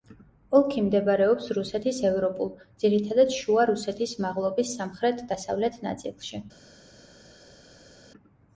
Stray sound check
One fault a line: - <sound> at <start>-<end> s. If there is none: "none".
none